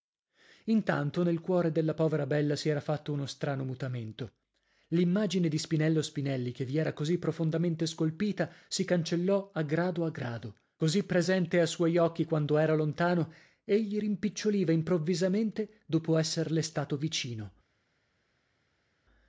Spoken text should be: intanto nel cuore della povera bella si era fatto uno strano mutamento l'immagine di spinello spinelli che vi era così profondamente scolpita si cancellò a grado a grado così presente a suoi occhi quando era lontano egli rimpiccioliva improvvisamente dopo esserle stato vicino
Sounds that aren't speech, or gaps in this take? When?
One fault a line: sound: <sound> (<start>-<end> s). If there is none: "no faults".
no faults